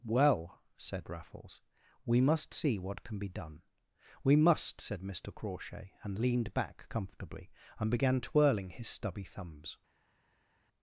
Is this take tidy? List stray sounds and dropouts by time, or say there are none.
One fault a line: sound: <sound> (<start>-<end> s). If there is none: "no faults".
no faults